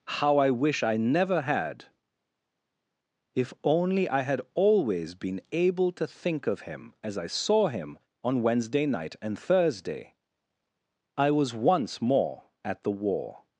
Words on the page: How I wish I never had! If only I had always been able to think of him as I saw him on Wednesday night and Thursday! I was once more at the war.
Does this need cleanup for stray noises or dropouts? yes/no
no